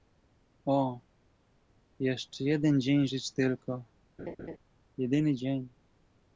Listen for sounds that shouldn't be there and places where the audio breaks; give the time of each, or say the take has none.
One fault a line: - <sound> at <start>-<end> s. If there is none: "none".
- laugh at 4.2-4.6 s